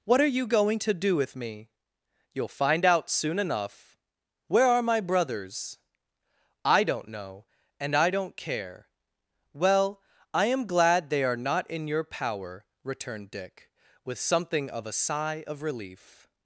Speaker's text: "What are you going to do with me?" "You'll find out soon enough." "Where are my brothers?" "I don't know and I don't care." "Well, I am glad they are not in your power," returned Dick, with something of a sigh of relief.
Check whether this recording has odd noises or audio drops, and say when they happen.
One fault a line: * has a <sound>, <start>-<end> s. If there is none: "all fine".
all fine